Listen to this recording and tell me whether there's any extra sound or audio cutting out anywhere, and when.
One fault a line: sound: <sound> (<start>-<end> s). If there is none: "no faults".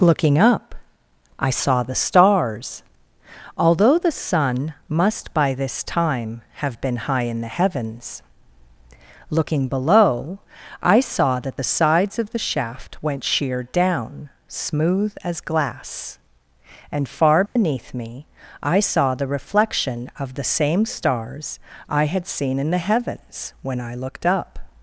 sound: dropout (17.5-17.6 s)